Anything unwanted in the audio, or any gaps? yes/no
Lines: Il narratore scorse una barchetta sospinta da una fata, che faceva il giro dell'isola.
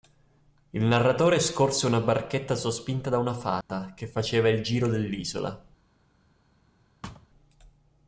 yes